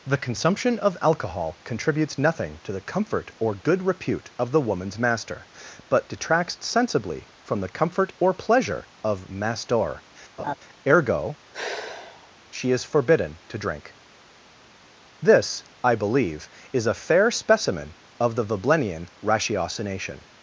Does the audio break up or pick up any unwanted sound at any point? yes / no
yes